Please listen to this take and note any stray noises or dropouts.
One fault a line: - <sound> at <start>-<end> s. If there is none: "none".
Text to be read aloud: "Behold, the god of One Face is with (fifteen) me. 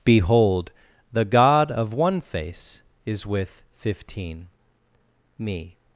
none